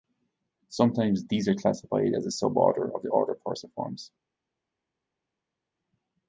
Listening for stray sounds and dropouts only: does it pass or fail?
pass